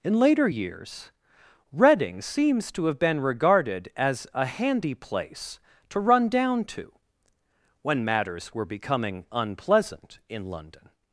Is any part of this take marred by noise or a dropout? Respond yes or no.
no